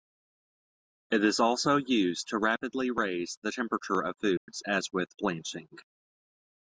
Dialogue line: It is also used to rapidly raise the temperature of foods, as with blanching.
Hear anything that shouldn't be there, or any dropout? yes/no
yes